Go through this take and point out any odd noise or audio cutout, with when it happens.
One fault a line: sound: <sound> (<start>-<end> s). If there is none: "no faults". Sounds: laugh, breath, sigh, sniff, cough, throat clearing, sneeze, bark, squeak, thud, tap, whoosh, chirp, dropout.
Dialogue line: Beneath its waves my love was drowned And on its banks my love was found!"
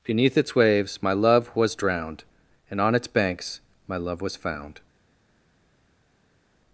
no faults